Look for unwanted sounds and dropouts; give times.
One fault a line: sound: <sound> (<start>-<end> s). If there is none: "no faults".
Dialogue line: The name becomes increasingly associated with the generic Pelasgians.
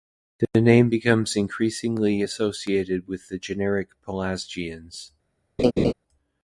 sound: laugh (5.6-5.9 s)